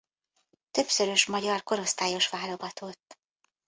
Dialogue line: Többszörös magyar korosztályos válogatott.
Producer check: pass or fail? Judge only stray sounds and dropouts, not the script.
pass